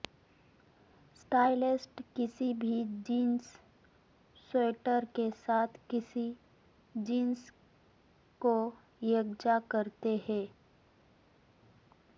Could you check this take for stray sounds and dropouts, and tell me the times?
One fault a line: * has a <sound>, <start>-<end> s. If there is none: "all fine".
all fine